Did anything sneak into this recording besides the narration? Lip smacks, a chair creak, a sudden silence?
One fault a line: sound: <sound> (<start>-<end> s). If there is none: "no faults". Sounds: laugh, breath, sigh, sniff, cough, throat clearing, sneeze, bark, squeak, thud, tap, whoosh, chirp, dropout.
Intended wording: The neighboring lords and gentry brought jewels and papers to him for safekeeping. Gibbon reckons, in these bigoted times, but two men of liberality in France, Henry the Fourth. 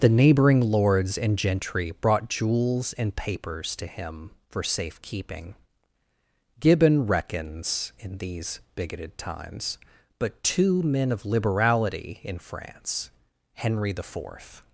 no faults